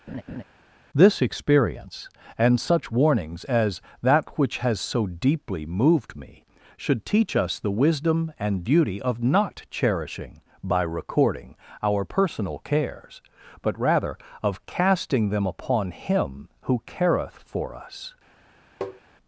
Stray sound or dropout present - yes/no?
yes